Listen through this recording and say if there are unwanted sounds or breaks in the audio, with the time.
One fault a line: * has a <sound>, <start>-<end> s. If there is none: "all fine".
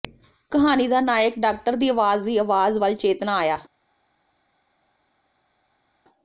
all fine